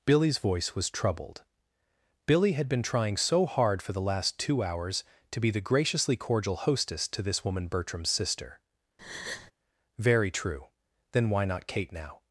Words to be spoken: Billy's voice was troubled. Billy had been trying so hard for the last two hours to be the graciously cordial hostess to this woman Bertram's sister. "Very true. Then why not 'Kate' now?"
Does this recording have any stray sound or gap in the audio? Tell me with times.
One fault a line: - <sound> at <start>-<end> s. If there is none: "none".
- breath at 9.0-9.5 s